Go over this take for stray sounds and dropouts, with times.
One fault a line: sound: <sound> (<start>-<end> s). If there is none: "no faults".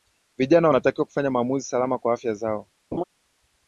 sound: laugh (2.9-3.0 s)